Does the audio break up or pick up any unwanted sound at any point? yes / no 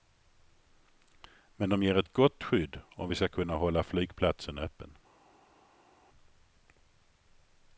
no